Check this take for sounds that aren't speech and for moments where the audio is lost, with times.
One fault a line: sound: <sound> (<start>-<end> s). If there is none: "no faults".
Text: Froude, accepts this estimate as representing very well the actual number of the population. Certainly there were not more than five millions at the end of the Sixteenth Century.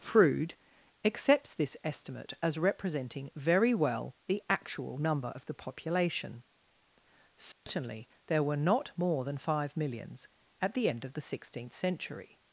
sound: dropout (7.5-7.7 s)